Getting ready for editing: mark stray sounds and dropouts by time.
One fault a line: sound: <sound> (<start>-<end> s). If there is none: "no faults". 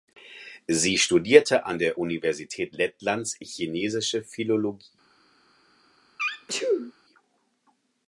sound: sneeze (6.2-6.9 s)